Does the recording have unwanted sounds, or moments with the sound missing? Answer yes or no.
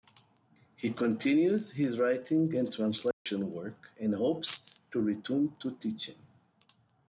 yes